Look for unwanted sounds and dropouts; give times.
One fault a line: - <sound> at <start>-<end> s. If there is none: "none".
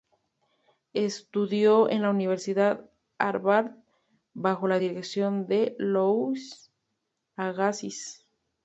none